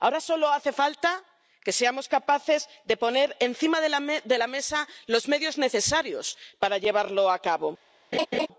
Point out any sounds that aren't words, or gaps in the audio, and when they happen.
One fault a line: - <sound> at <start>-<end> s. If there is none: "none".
- laugh at 8.1-8.5 s